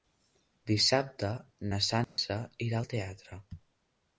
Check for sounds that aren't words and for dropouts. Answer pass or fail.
fail